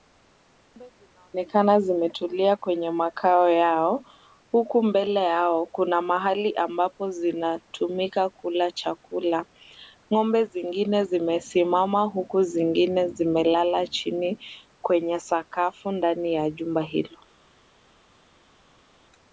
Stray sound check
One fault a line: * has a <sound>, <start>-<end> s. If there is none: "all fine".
all fine